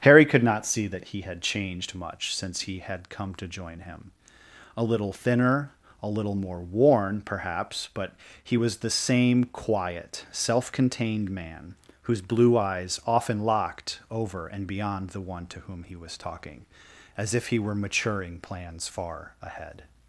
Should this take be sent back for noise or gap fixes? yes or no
no